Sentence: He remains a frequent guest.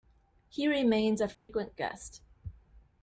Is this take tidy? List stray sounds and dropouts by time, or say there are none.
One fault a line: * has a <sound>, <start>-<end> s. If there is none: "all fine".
* has a dropout, 1.3-1.5 s